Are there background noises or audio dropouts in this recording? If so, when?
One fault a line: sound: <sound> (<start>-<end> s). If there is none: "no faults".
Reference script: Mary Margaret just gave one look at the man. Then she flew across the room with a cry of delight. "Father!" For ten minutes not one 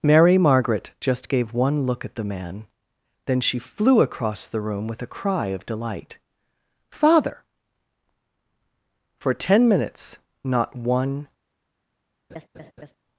sound: laugh (12.3-12.9 s)